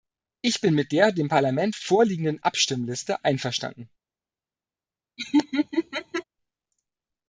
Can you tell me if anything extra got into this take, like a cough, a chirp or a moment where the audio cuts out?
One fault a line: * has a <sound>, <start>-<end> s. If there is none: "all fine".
* has a laugh, 5.2-6.2 s